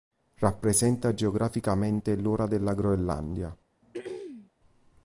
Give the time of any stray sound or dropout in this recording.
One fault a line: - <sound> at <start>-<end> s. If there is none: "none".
- throat clearing at 3.8-4.5 s